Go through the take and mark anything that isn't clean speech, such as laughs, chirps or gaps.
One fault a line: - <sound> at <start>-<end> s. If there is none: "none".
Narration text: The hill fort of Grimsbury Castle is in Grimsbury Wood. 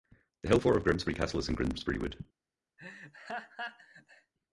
- laugh at 2.8-4.3 s